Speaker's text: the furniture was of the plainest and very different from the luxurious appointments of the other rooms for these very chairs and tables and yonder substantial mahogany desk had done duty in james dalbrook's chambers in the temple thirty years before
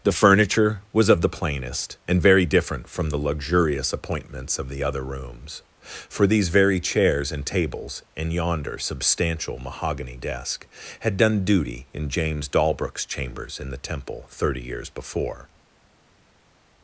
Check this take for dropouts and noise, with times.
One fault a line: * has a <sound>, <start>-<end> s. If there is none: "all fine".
all fine